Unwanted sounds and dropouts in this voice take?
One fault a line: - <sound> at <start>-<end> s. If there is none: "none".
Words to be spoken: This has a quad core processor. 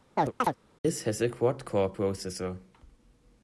- chirp at 0.2-0.6 s